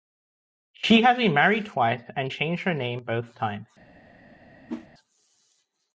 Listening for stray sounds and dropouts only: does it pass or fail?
fail